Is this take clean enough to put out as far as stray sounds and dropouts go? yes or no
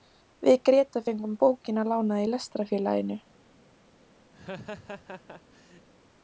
no